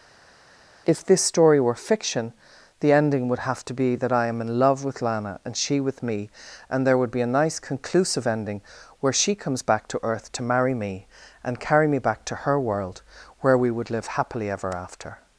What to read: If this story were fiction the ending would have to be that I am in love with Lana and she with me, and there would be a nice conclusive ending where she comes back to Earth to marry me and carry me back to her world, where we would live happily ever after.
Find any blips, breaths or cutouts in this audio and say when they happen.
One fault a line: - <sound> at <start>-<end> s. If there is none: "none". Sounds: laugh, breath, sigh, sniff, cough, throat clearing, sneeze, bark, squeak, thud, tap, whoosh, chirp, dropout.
none